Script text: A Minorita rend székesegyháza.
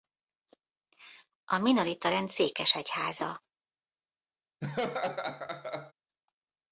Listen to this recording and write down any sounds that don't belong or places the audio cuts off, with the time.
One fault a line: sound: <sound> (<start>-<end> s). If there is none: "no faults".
sound: laugh (4.6-5.9 s)